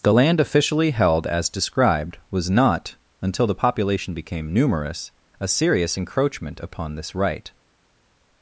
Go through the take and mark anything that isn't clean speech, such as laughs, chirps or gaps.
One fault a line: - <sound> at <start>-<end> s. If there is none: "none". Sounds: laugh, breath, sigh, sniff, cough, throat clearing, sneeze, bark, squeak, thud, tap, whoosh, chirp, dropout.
none